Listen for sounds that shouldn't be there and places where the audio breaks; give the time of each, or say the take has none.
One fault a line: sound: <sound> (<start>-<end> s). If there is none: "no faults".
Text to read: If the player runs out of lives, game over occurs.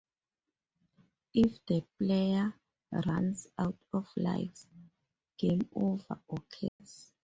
sound: dropout (6.7-6.8 s)